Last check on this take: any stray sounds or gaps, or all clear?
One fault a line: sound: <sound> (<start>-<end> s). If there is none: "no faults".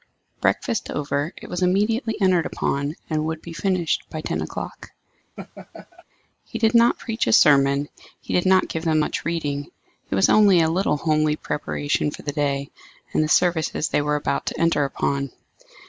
sound: laugh (5.4-6.0 s)